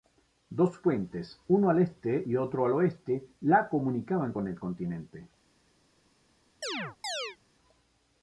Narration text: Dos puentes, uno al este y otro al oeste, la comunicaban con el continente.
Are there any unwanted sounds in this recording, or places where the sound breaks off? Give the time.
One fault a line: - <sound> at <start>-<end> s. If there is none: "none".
- chirp at 6.6-7.4 s